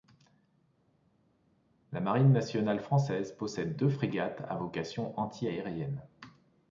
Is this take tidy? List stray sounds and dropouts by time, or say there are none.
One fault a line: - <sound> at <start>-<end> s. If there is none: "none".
none